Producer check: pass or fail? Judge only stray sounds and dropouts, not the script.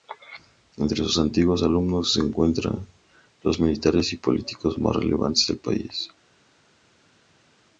pass